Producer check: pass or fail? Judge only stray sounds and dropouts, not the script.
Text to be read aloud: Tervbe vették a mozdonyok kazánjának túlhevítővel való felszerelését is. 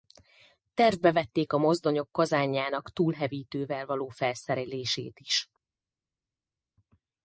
pass